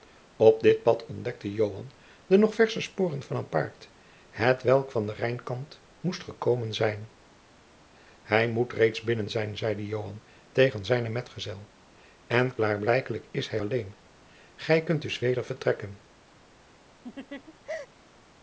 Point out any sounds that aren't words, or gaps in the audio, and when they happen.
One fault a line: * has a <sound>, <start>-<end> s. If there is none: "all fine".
* has a laugh, 17.0-17.9 s